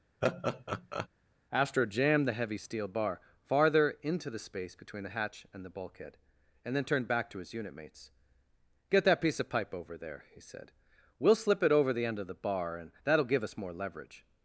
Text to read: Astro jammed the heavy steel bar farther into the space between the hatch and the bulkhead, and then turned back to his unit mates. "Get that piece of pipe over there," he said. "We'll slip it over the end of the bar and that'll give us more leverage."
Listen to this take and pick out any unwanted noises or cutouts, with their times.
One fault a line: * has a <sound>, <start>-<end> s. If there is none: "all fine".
* has a laugh, 0.2-1.1 s